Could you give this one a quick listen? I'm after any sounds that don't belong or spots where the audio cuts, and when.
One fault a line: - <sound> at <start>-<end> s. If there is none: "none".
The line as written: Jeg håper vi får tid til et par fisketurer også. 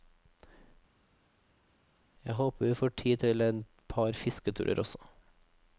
none